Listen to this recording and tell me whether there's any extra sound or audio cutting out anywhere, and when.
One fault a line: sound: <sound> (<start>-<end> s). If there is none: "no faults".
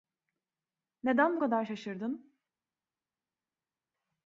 no faults